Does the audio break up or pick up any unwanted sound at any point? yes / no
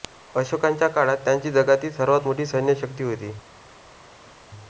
no